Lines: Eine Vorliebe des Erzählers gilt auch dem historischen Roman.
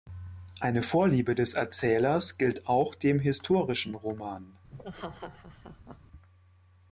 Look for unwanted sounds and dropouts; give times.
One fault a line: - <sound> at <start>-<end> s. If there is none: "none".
- laugh at 4.7-6.0 s